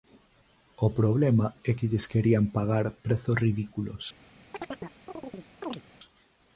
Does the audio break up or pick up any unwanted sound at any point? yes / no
yes